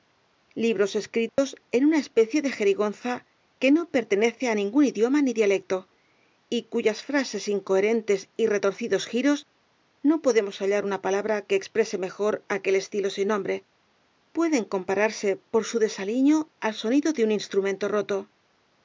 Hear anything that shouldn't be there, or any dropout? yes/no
yes